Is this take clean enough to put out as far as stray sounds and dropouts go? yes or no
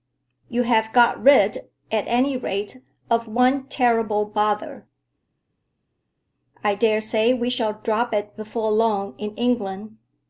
yes